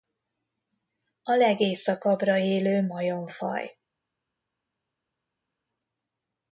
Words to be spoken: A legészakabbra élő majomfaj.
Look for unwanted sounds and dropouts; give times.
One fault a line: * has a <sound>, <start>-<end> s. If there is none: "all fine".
all fine